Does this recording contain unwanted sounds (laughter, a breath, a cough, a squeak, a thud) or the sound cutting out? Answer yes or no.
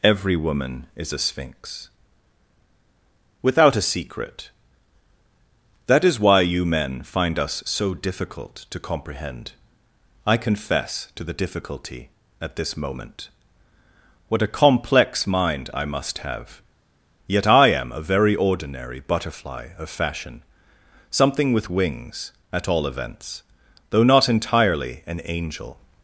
no